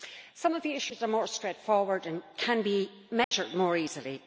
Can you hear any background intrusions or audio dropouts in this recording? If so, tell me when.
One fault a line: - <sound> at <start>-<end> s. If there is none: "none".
- dropout at 3.2-3.3 s